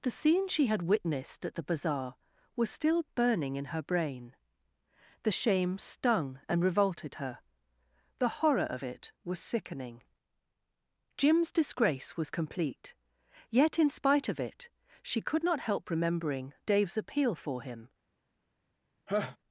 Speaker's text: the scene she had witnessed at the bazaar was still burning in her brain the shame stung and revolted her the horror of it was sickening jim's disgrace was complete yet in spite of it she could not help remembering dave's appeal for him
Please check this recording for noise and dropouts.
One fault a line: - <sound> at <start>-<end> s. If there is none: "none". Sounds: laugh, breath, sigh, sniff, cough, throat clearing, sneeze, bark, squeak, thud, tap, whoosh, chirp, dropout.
- laugh at 19.1-19.4 s